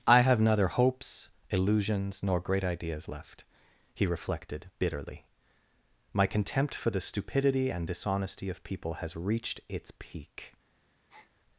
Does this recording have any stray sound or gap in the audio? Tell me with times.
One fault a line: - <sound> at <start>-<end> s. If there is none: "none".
- breath at 11.1-11.3 s